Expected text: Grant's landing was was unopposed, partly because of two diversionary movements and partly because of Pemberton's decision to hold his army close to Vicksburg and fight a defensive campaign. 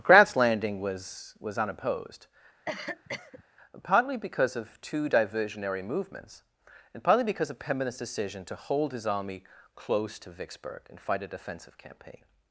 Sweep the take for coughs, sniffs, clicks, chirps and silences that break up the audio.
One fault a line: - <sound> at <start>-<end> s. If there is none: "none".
- cough at 2.7-3.4 s